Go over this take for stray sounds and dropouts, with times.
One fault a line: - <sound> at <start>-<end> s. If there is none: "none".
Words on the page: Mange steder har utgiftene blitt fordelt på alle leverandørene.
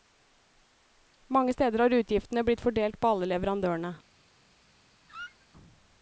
- squeak at 5.1-5.5 s